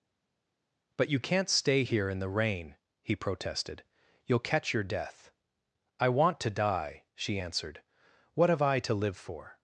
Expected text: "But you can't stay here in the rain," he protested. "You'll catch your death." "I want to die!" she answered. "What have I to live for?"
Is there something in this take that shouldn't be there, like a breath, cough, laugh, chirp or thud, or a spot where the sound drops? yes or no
no